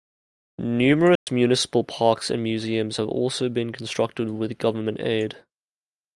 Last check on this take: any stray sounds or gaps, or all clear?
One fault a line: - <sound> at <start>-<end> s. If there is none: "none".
- dropout at 1.2-1.3 s